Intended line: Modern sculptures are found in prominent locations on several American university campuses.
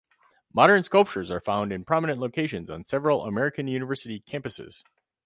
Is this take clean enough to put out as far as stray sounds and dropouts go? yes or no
yes